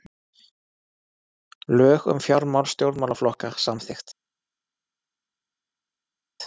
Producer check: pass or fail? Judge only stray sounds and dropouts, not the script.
pass